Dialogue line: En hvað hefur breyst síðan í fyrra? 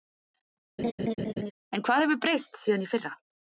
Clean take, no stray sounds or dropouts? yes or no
no